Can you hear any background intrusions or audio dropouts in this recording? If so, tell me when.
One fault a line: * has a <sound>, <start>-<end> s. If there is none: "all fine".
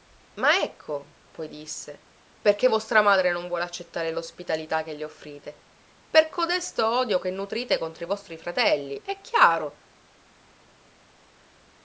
all fine